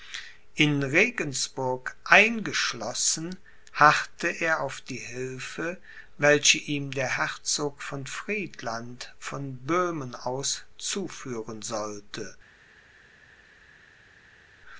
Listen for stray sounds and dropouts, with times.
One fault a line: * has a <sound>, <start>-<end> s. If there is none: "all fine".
all fine